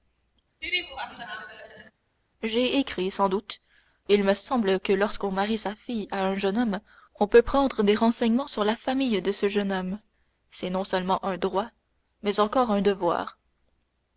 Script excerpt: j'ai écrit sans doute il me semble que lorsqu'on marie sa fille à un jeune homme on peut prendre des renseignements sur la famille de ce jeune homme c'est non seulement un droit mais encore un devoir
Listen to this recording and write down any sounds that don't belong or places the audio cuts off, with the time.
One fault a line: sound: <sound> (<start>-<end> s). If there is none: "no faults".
sound: laugh (0.6-1.9 s)